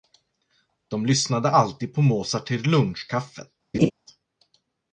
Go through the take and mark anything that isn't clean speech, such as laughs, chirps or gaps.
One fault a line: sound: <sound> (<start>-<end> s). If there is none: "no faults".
sound: laugh (3.7-3.9 s)